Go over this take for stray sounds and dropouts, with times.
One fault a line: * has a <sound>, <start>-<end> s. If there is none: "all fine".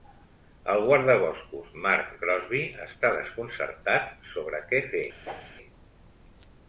* has a whoosh, 5.2-5.6 s